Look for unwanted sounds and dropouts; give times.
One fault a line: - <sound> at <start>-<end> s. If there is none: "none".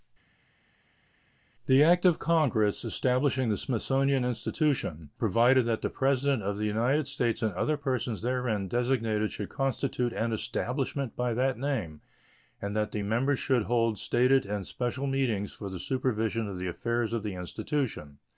none